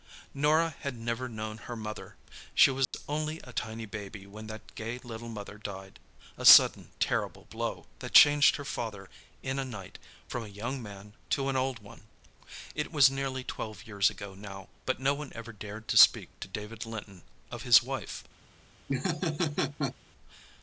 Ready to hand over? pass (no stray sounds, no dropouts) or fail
fail